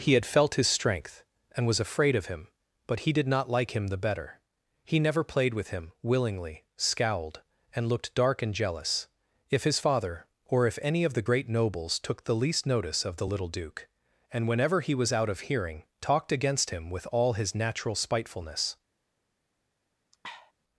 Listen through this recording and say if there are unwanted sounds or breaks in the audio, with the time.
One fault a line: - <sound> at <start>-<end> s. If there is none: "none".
- sniff at 20.1-20.5 s